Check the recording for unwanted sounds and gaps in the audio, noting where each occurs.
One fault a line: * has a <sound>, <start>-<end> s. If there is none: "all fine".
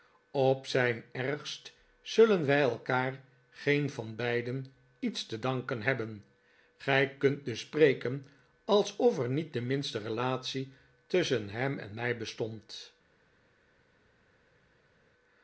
all fine